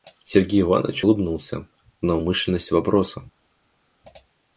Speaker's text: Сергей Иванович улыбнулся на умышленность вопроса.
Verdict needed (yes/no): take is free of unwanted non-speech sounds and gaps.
yes